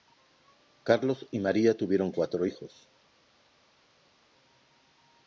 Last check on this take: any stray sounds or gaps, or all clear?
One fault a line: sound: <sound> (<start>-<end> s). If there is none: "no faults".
no faults